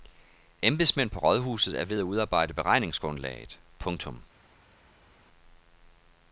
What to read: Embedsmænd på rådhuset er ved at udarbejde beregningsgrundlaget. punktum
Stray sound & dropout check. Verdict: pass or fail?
pass